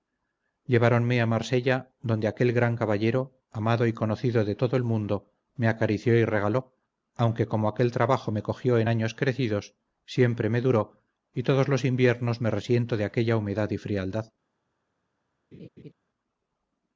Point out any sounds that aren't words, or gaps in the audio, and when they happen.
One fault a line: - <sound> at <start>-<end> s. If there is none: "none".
- laugh at 15.5-15.9 s